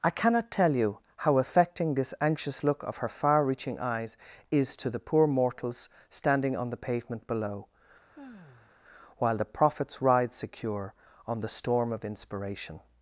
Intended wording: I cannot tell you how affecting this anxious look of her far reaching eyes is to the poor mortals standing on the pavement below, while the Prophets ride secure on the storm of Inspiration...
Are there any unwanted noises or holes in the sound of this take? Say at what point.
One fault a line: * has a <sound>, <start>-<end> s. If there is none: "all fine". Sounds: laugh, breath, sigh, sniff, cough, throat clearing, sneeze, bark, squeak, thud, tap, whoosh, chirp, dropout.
* has a sigh, 8.1-8.7 s